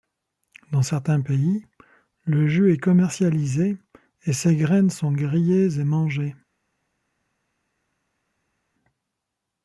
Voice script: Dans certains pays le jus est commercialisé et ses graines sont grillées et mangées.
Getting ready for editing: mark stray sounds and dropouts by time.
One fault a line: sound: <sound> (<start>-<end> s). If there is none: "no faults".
no faults